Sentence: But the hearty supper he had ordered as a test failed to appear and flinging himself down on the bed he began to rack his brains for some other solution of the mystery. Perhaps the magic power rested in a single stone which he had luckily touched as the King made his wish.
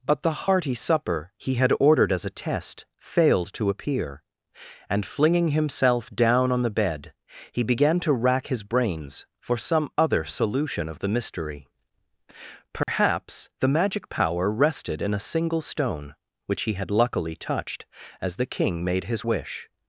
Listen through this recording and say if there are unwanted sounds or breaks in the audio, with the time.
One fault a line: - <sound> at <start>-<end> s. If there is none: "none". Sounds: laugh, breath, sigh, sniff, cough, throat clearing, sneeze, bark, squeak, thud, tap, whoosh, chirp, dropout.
- dropout at 12.8-12.9 s